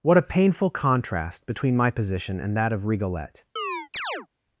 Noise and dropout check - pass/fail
fail